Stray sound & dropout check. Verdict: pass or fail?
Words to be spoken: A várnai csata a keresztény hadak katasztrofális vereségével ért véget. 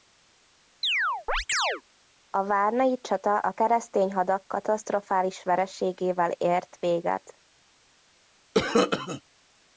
fail